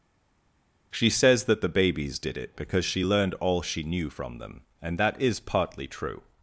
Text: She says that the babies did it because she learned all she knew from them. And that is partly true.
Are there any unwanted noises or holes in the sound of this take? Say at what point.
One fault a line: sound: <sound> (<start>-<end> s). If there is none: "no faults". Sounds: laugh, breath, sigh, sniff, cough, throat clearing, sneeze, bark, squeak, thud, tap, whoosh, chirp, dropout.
no faults